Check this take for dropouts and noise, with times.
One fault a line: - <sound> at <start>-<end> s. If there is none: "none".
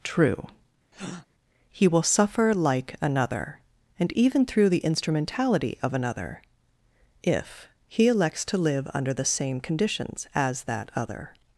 - breath at 0.9-1.3 s